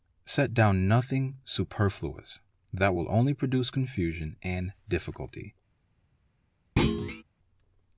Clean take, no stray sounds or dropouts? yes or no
no